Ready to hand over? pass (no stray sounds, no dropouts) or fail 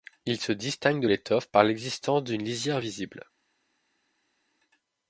pass